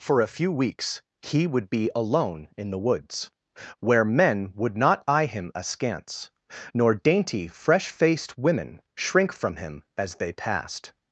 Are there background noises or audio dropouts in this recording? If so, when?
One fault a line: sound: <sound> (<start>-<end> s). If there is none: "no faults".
no faults